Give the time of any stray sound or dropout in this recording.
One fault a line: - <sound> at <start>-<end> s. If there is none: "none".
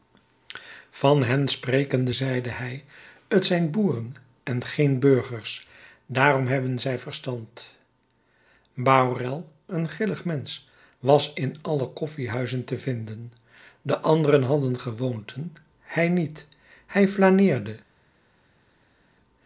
none